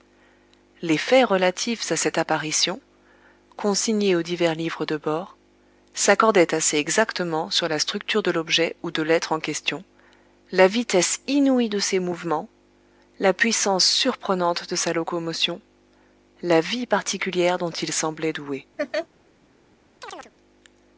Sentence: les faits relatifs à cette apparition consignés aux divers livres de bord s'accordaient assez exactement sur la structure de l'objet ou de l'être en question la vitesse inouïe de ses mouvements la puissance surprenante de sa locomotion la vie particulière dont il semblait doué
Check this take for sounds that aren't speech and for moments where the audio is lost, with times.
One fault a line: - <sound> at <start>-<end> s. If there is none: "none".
- laugh at 18.8-19.1 s
- chirp at 20.0-20.3 s